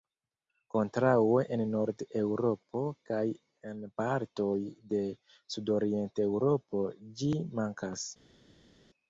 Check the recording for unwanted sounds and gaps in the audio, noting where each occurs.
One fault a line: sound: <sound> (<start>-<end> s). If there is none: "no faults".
no faults